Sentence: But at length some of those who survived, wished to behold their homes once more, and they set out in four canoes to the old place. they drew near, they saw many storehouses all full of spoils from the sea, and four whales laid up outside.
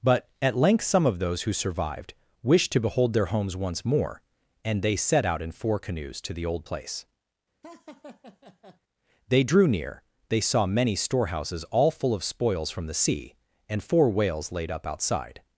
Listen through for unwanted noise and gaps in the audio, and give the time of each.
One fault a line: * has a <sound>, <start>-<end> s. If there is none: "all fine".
* has a laugh, 7.6-8.8 s